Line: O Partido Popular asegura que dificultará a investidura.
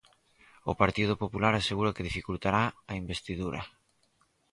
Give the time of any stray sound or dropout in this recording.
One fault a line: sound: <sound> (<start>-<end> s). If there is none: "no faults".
no faults